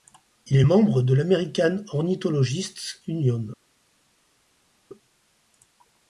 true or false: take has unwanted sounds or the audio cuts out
false